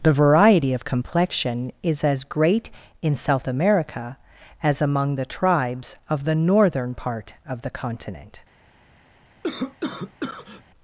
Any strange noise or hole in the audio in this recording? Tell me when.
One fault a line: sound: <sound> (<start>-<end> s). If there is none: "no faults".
sound: cough (9.4-10.6 s)